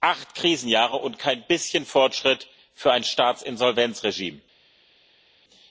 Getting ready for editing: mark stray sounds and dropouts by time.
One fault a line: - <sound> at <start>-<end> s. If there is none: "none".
none